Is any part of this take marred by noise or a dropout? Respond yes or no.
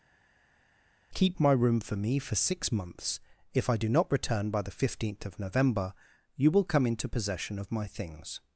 no